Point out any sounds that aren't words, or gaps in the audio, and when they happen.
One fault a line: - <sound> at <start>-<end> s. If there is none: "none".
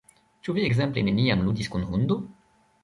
none